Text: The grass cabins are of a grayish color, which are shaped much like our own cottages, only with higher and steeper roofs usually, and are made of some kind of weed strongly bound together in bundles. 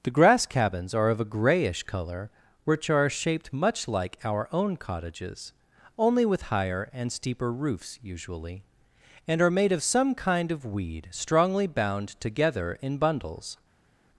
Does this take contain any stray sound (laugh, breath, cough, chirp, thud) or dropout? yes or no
no